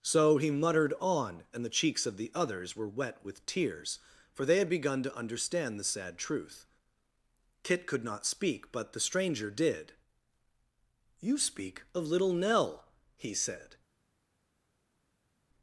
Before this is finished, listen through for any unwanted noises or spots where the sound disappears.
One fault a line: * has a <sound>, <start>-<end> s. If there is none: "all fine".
all fine